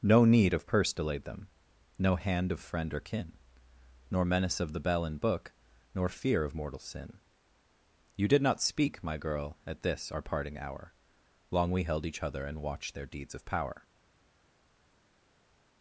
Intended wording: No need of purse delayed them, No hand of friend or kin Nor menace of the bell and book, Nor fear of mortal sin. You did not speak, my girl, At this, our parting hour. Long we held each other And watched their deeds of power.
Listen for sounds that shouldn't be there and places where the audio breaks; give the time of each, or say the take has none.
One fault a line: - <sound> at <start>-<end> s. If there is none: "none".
none